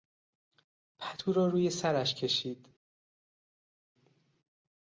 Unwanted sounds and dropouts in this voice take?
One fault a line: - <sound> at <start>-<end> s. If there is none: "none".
none